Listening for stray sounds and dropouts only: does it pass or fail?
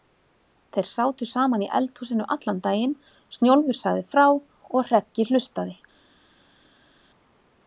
pass